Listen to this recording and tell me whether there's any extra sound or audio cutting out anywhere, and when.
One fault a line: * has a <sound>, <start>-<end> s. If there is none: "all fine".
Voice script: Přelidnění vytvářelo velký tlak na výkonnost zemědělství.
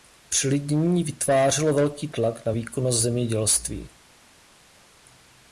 all fine